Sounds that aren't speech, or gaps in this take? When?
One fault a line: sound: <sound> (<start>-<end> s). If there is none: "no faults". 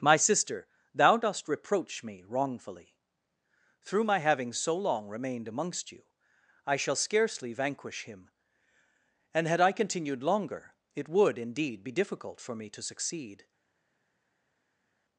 no faults